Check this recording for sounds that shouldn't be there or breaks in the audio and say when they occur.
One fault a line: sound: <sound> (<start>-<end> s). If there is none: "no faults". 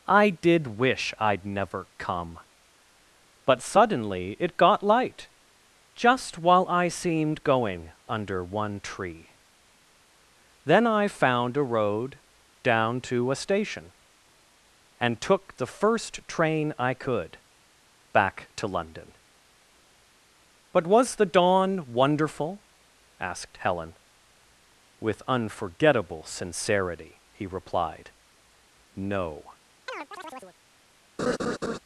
sound: chirp (29.9-30.6 s)
sound: laugh (31.2-31.8 s)